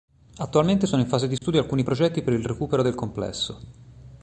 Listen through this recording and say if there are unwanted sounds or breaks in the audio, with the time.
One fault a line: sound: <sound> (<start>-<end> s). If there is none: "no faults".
sound: dropout (1.4-1.4 s)